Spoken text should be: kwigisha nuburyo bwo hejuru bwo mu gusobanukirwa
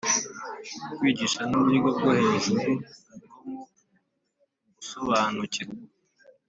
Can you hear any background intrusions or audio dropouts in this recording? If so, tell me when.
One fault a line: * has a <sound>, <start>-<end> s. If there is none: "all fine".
all fine